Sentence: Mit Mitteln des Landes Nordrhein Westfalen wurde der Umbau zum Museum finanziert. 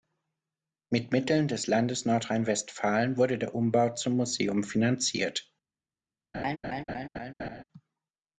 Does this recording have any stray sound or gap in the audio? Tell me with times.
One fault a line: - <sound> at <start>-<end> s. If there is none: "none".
- laugh at 6.3-7.6 s